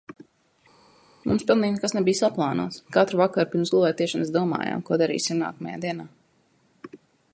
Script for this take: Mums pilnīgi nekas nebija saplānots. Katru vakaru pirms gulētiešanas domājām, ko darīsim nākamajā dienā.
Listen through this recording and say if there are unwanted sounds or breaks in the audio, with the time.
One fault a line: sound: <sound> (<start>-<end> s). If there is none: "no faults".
no faults